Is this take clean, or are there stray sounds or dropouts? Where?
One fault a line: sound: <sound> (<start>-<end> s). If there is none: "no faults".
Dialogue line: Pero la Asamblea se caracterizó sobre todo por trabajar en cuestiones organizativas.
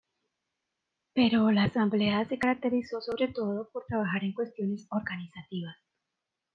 no faults